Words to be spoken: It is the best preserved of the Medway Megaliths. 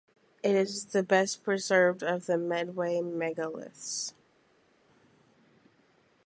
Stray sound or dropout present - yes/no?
no